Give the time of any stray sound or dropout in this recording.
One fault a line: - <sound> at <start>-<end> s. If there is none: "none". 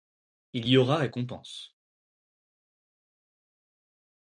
none